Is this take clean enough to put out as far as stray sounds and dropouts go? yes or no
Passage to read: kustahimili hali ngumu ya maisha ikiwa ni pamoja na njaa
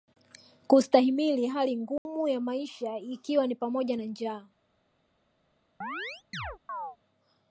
no